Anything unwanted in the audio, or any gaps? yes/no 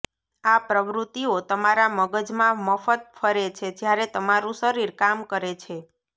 no